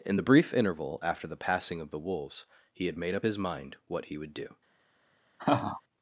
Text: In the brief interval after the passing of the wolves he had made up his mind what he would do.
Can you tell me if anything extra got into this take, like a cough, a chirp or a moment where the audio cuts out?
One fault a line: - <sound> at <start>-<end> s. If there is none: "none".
- laugh at 5.4-5.8 s